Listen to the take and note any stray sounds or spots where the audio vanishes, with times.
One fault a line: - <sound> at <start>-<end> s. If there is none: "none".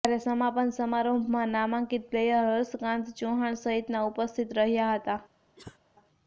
- cough at 5.6-5.8 s